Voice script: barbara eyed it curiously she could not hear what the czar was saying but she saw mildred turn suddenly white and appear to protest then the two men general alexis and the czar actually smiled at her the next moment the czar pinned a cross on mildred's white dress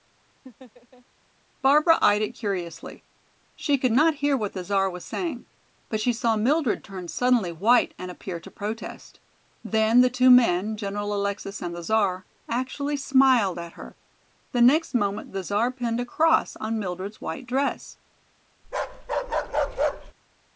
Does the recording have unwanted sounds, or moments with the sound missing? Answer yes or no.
yes